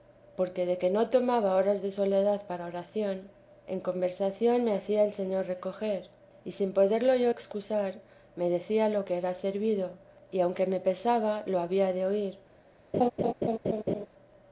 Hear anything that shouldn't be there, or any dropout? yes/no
yes